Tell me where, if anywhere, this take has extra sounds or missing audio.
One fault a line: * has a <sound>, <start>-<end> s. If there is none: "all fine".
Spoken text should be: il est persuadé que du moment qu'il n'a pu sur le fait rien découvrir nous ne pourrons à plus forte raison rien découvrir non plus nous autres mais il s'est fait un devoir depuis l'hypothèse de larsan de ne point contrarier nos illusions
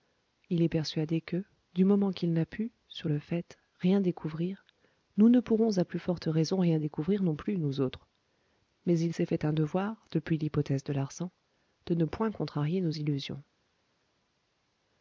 all fine